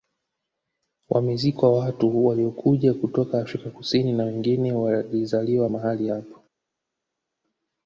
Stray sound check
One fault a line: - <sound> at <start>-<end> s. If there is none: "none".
none